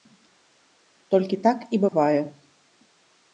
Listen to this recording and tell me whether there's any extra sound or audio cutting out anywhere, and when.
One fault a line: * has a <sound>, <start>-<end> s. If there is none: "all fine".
* has a dropout, 1.9-1.9 s